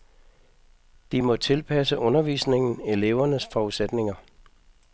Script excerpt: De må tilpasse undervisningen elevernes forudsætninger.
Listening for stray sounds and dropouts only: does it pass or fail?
pass